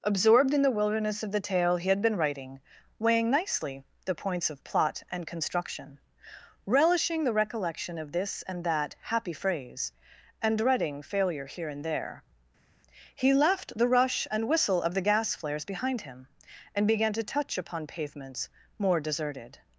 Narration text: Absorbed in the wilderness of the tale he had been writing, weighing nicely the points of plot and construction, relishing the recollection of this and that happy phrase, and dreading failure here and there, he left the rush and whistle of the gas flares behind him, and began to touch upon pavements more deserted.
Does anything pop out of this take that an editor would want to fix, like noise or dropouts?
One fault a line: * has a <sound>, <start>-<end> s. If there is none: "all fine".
all fine